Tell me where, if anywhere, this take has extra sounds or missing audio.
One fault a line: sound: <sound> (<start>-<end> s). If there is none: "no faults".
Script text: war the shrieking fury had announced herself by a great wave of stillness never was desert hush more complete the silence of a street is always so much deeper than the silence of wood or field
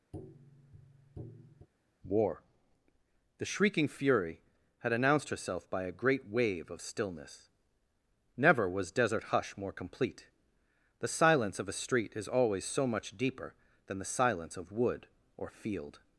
sound: tap (0.1-1.7 s)